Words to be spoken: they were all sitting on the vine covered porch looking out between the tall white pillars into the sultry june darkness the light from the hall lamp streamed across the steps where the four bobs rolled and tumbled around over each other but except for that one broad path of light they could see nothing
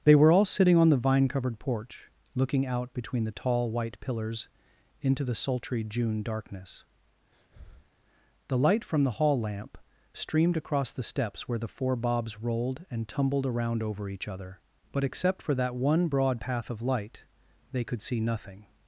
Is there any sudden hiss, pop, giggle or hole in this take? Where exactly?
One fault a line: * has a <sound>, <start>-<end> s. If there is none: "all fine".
* has a breath, 7.3-7.9 s